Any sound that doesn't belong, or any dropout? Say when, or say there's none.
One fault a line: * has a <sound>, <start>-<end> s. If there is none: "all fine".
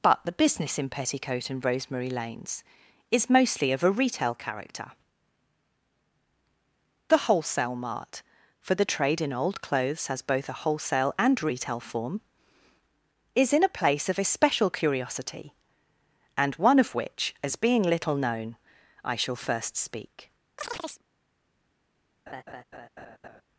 * has a chirp, 20.6-21.0 s
* has a laugh, 22.3-23.4 s